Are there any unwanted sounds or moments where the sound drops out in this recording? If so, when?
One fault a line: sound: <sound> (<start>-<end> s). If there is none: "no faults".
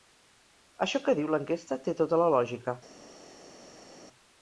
no faults